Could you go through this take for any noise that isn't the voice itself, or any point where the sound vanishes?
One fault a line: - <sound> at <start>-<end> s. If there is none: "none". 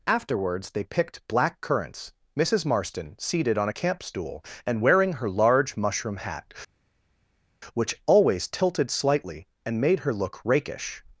none